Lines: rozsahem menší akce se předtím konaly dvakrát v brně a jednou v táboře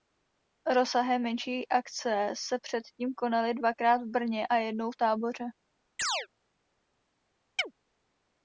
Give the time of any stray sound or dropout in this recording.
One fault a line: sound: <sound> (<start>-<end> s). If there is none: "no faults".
sound: chirp (6.0-6.3 s)
sound: chirp (7.6-7.7 s)